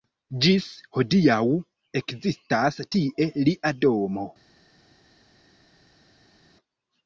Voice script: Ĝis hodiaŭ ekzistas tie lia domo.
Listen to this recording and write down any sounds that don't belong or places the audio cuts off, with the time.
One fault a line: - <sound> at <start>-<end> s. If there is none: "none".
none